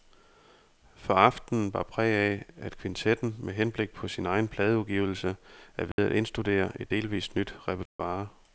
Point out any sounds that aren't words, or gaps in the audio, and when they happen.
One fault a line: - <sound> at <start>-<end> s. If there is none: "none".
- dropout at 5.9-6.0 s
- dropout at 7.9-8.0 s